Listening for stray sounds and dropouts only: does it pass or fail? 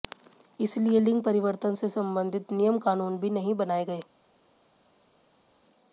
pass